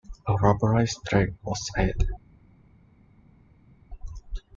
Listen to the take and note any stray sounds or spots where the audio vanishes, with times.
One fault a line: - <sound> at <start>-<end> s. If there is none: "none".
none